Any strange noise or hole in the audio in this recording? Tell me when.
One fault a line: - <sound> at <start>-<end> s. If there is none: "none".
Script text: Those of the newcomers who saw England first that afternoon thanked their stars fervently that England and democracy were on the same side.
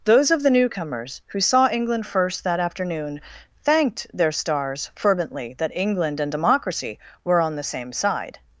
none